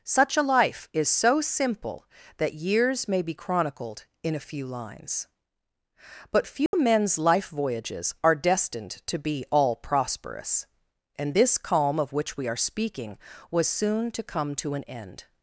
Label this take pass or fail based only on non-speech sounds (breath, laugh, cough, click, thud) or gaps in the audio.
fail